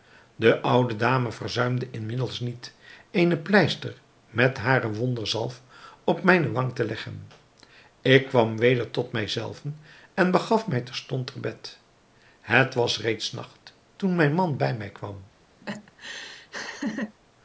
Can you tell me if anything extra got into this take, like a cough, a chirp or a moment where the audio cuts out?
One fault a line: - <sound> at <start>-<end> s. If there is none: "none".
- laugh at 15.6-17.2 s